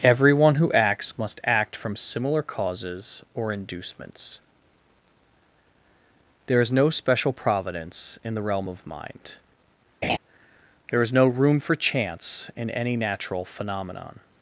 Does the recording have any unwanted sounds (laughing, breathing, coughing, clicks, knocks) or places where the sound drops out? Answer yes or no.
yes